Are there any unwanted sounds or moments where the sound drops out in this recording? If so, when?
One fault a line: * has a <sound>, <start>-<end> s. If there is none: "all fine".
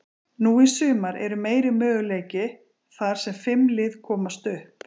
all fine